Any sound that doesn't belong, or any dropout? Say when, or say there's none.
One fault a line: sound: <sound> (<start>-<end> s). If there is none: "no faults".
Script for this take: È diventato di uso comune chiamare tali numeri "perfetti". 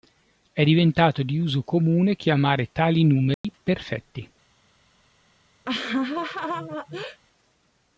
sound: dropout (3.3-3.4 s)
sound: laugh (5.6-7.2 s)